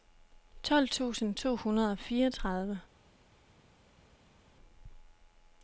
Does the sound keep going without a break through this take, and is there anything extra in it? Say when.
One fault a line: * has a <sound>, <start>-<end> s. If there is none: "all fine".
all fine